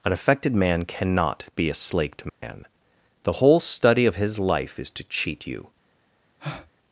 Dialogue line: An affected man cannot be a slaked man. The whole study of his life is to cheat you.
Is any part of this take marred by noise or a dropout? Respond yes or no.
yes